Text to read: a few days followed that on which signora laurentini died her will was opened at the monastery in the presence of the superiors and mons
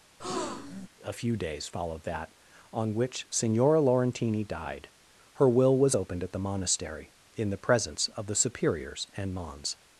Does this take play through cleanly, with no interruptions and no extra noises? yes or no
no